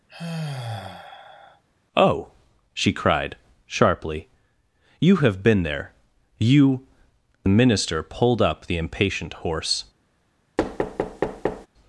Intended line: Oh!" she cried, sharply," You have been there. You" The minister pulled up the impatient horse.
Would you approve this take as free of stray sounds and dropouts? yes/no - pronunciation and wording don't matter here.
no